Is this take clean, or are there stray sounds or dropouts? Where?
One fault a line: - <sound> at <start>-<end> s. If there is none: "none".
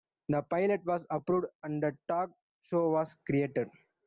none